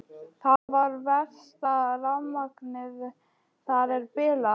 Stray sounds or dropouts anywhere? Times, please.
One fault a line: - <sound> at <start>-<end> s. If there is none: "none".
- dropout at 0.6-0.7 s